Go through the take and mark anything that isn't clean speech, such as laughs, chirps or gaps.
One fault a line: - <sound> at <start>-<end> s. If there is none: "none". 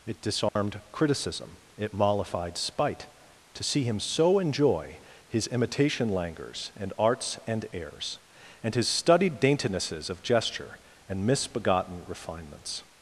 - dropout at 0.5-0.6 s